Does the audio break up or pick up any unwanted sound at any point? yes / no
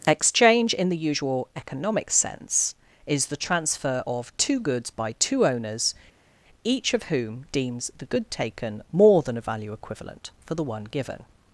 no